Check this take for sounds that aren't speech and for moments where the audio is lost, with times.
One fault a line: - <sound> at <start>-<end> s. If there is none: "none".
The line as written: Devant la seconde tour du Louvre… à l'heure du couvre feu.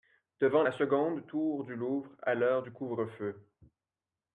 none